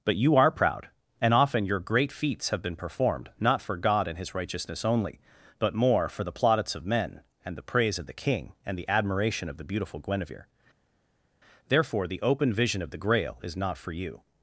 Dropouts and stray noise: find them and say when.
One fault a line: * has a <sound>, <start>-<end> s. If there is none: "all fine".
all fine